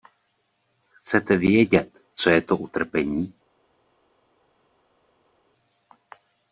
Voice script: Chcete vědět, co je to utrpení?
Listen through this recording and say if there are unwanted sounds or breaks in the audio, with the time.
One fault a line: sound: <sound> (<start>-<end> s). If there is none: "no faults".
no faults